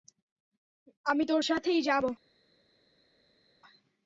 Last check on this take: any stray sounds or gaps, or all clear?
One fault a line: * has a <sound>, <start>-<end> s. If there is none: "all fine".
all fine